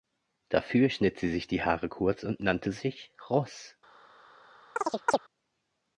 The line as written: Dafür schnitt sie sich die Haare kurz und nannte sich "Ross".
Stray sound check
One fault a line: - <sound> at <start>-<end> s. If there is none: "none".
- chirp at 4.8-5.2 s